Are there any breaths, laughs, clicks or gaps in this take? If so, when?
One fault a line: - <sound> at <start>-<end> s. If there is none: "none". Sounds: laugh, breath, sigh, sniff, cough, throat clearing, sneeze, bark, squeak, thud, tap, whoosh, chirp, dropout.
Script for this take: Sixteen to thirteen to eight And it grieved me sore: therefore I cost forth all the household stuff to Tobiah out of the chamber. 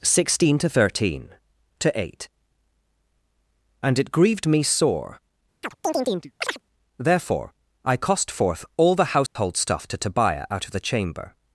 - chirp at 5.6-6.6 s
- dropout at 9.3-9.4 s